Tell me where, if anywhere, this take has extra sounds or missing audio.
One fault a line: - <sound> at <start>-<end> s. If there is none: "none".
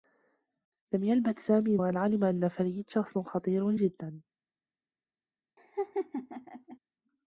- laugh at 5.6-6.8 s